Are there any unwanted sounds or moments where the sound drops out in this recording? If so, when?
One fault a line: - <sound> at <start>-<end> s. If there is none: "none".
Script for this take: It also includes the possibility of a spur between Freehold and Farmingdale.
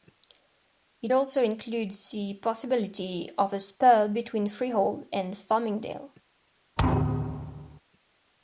- thud at 6.8-7.8 s